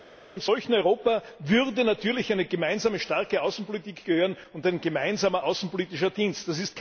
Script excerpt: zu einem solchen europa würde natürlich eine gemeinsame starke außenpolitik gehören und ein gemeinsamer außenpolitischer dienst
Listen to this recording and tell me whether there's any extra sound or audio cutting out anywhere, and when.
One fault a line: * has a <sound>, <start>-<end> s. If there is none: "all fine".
all fine